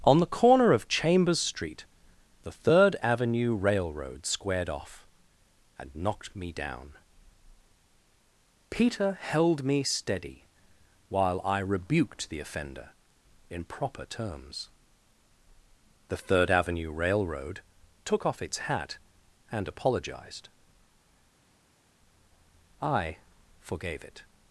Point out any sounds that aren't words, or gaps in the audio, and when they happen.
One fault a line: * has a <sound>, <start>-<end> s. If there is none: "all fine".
all fine